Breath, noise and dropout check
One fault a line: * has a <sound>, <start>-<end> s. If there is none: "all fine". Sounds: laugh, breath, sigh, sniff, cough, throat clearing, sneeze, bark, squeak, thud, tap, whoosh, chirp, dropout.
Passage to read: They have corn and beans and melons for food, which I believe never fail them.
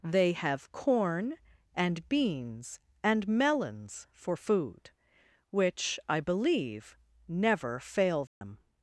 * has a dropout, 8.3-8.4 s